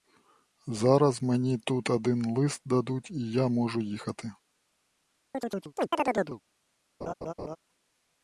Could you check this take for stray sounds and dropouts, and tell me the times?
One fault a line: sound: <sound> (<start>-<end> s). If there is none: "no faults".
sound: chirp (5.3-6.4 s)
sound: laugh (7.0-7.6 s)